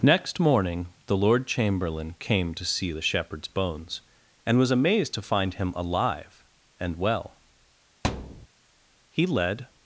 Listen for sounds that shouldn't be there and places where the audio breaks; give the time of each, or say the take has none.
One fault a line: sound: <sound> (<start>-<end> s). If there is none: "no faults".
sound: thud (8.0-8.5 s)